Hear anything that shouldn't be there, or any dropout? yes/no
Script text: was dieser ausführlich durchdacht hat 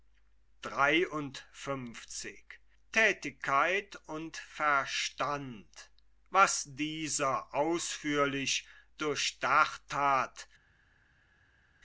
no